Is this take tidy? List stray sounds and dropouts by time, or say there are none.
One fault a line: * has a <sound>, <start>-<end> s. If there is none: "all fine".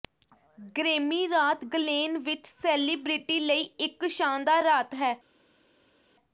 all fine